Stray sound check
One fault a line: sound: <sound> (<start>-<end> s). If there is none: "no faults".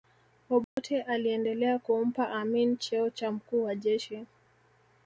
sound: dropout (0.6-0.8 s)